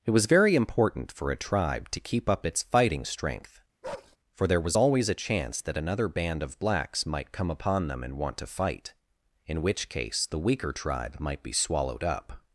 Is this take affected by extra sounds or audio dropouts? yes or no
yes